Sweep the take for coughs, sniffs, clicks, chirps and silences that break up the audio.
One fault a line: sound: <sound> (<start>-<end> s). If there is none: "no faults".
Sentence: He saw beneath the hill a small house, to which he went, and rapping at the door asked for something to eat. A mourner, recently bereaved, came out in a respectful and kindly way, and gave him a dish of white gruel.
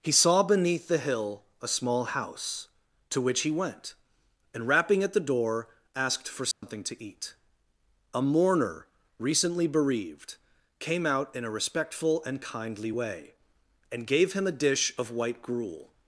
sound: dropout (6.5-6.6 s)